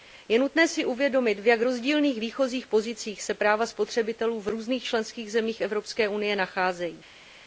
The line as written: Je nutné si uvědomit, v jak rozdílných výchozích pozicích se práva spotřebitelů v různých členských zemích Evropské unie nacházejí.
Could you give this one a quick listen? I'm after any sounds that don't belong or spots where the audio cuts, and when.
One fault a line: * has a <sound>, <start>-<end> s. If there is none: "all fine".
all fine